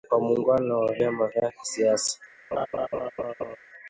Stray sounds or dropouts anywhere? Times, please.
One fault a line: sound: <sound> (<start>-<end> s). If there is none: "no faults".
sound: laugh (2.5-3.6 s)